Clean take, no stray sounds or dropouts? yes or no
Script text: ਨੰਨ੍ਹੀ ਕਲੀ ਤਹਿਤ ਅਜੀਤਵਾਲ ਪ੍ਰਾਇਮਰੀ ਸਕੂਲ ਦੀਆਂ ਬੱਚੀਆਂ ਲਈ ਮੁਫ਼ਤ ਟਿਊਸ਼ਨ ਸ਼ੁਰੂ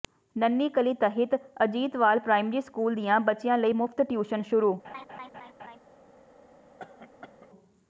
no